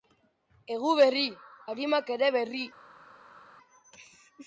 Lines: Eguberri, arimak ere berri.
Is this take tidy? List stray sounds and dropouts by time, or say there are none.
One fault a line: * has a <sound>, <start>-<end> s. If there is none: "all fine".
all fine